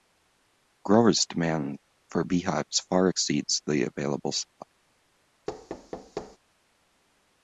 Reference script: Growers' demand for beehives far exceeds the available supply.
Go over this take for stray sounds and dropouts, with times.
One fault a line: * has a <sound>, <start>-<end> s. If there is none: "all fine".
* has a thud, 5.5-6.4 s